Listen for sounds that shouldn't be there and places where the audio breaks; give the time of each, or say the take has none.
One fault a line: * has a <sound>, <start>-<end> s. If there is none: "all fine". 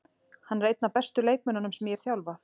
all fine